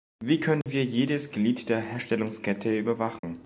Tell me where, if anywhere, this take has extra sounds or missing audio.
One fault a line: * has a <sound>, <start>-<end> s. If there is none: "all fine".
* has a dropout, 0.6-0.7 s
* has a dropout, 3.2-3.2 s